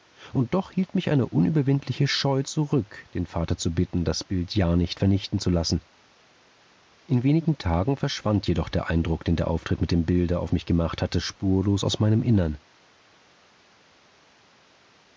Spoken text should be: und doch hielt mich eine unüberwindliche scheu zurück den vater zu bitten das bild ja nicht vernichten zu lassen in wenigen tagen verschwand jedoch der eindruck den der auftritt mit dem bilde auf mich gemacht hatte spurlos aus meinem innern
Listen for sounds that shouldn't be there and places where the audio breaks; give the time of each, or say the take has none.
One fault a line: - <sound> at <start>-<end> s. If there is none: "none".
none